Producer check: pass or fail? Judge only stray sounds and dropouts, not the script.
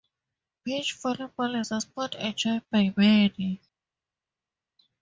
pass